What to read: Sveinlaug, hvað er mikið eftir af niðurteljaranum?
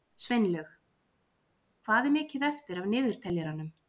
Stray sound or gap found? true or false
false